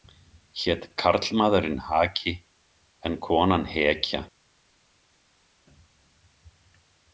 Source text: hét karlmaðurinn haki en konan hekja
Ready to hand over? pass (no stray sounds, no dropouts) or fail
pass